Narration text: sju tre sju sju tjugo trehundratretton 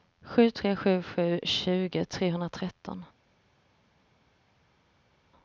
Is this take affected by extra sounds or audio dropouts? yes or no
no